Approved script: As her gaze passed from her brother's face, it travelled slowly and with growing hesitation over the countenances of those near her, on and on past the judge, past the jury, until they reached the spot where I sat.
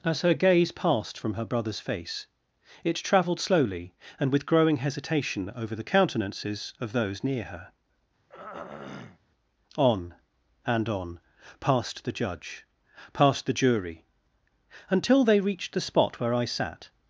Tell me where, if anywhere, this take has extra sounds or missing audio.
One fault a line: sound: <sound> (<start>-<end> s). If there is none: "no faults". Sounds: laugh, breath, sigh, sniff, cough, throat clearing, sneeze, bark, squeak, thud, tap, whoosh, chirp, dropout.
sound: throat clearing (8.3-9.2 s)